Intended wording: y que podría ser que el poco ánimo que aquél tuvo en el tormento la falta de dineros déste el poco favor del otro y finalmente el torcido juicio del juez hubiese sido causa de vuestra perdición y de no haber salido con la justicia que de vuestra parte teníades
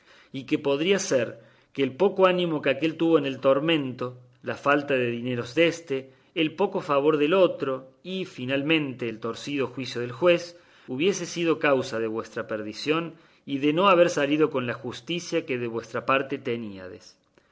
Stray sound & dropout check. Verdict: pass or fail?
pass